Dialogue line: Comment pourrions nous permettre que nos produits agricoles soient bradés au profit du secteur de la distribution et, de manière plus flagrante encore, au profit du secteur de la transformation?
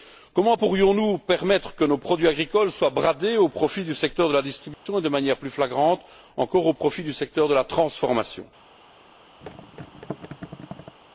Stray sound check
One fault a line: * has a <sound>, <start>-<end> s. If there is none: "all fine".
* has a dropout, 4.7-4.9 s
* has a thud, 9.4-11.0 s